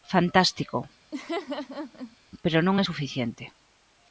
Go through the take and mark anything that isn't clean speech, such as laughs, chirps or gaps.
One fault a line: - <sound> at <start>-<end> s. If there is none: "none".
- laugh at 1.1-2.2 s